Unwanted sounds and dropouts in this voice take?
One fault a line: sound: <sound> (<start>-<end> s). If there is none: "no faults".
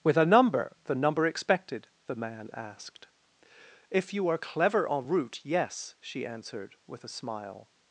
no faults